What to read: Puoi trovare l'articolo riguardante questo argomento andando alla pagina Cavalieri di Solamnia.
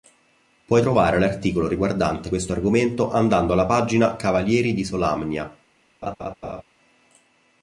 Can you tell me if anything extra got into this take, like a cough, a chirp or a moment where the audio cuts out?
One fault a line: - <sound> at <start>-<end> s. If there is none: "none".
- laugh at 6.0-6.6 s